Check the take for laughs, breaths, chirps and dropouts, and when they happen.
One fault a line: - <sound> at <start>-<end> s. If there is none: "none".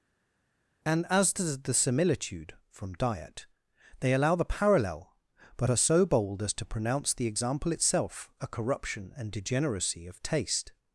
none